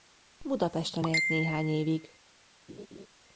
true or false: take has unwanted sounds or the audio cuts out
true